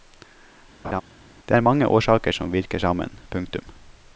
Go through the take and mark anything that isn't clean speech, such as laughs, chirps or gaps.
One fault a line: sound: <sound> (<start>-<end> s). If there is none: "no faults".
sound: laugh (0.8-1.0 s)